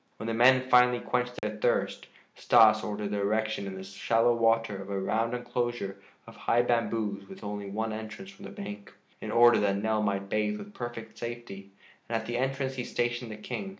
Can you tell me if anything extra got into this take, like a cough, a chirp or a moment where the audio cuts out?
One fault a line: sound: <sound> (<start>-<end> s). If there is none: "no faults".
sound: dropout (1.4-1.4 s)